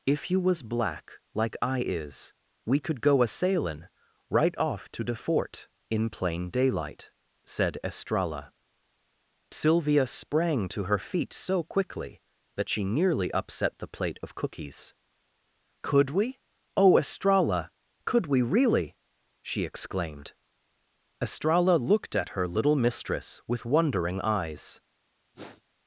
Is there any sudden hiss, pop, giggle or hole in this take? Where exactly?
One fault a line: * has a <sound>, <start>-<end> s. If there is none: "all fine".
* has a sniff, 25.3-25.6 s